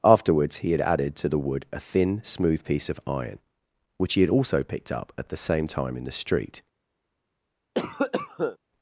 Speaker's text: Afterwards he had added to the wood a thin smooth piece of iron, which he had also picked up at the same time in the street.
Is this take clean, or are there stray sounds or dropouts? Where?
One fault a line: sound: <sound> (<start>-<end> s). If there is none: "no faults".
sound: cough (7.7-8.6 s)